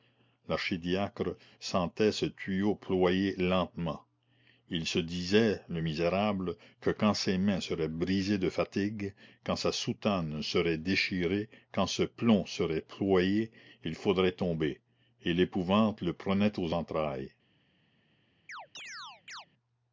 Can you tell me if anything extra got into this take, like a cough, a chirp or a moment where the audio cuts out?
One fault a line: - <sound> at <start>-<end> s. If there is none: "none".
- chirp at 18.5-19.5 s